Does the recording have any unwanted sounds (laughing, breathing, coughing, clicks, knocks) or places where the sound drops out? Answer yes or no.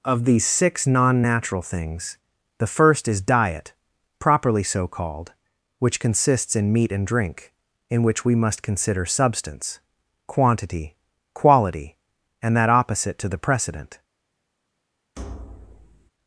yes